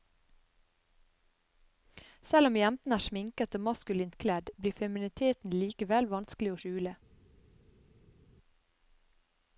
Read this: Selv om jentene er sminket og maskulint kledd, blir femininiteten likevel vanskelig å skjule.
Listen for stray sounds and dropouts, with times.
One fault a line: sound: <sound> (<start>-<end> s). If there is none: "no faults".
no faults